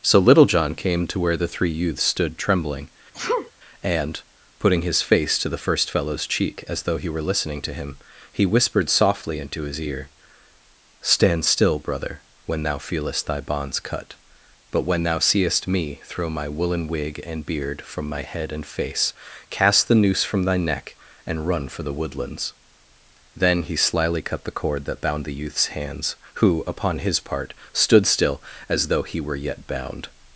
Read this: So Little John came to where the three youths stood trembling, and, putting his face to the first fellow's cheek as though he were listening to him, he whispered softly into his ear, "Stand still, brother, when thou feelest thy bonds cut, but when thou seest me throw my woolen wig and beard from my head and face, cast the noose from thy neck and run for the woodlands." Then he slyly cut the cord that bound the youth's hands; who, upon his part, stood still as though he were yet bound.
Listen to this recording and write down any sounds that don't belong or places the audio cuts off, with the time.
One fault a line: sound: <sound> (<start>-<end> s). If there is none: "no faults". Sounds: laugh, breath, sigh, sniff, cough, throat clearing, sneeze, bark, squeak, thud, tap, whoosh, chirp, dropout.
sound: sneeze (3.1-3.5 s)